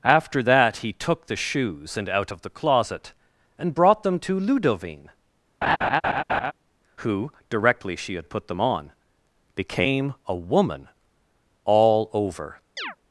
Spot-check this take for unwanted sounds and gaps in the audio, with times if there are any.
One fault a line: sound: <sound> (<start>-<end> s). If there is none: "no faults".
sound: laugh (5.6-6.5 s)
sound: chirp (12.8-13.0 s)